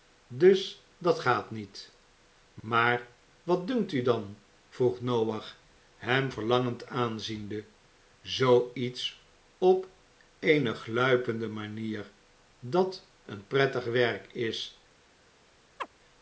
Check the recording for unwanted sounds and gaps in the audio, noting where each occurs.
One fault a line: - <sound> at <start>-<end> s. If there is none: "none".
- chirp at 15.8-15.9 s